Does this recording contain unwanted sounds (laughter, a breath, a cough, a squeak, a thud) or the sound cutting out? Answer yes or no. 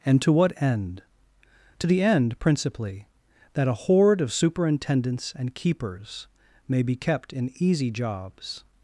no